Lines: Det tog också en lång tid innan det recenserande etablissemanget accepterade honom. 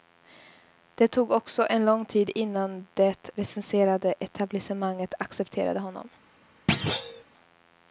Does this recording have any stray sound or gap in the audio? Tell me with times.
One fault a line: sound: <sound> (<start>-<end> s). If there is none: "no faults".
sound: thud (6.7-7.2 s)